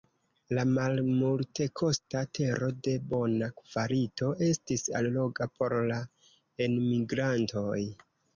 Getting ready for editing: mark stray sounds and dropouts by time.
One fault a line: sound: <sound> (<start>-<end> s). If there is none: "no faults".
no faults